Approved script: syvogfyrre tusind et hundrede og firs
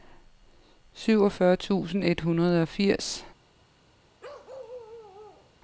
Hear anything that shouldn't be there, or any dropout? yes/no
yes